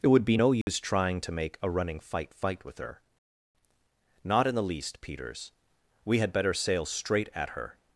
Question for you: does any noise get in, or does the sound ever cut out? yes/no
yes